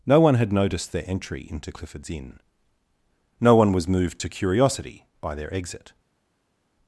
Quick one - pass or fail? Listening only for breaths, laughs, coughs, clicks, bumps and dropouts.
pass